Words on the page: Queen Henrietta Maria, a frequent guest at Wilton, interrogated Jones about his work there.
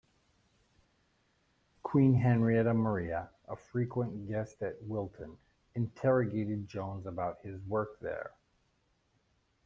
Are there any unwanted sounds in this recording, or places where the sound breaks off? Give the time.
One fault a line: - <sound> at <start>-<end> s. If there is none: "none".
none